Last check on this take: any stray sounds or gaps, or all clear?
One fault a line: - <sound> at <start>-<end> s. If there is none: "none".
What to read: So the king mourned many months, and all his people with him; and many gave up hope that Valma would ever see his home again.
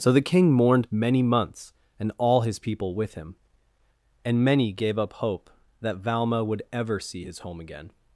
none